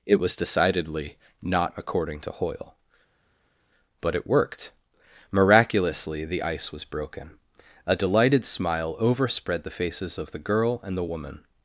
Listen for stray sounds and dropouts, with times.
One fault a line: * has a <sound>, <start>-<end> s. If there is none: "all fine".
all fine